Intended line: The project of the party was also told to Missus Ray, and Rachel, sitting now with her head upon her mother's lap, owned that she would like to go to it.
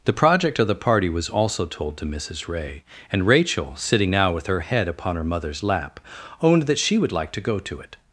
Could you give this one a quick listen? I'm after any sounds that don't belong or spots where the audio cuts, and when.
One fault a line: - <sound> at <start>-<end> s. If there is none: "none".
none